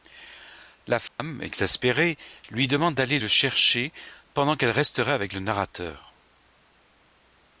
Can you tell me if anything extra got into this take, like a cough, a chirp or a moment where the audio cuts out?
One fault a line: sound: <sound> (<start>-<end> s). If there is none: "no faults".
sound: dropout (1.1-1.2 s)